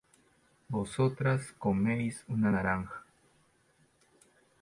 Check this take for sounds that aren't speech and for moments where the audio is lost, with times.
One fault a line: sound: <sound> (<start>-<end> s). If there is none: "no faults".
no faults